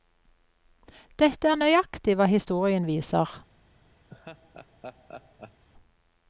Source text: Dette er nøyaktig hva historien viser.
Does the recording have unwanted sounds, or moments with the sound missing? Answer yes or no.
yes